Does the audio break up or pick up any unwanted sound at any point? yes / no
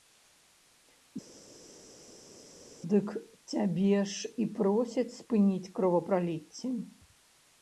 no